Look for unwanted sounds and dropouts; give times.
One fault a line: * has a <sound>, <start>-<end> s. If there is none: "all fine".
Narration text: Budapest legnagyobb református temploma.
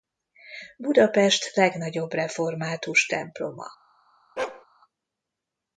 * has a bark, 4.4-4.7 s